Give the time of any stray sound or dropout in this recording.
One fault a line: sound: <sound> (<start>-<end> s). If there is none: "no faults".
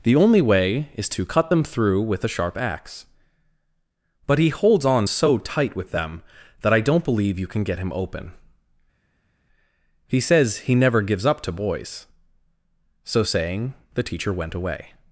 no faults